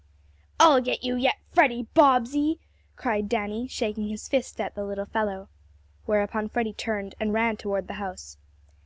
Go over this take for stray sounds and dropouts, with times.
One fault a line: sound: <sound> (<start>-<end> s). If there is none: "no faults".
no faults